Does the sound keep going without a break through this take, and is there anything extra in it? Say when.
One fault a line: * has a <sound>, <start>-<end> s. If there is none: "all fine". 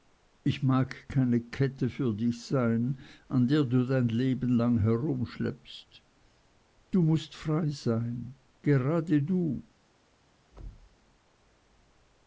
* has a thud, 10.5-11.0 s